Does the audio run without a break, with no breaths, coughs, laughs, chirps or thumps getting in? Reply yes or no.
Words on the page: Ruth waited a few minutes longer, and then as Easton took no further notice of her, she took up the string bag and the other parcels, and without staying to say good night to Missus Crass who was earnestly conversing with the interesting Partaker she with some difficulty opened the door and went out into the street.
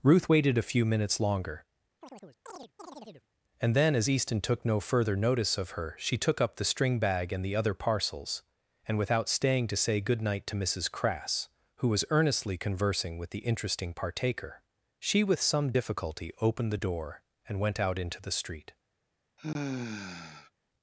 no